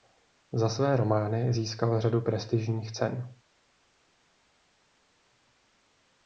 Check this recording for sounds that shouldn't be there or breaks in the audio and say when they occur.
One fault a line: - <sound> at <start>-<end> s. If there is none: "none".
none